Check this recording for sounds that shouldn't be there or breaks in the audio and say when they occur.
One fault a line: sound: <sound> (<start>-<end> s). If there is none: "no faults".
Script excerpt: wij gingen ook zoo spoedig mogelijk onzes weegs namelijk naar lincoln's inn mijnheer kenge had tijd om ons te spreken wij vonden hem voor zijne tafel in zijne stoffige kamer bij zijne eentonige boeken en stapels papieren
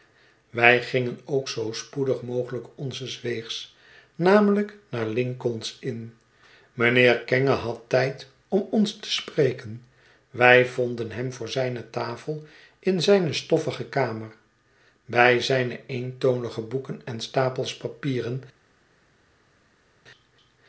no faults